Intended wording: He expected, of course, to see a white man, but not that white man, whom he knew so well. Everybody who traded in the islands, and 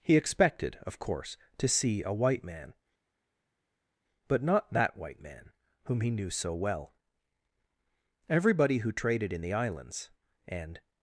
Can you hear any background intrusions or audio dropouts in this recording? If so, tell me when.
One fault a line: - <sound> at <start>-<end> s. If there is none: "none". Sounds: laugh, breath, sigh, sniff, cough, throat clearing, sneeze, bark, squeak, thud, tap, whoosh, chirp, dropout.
none